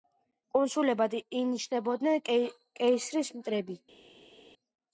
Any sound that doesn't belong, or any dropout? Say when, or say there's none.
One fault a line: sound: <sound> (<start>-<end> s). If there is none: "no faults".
no faults